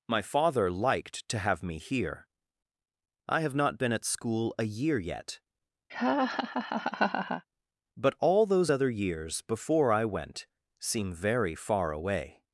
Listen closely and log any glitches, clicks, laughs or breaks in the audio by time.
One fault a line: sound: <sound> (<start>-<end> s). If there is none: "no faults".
sound: laugh (5.9-7.4 s)